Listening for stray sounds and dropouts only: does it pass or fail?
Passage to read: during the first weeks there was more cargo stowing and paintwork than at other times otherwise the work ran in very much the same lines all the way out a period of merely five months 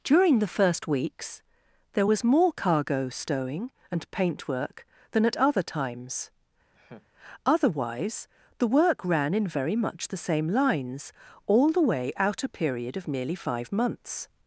fail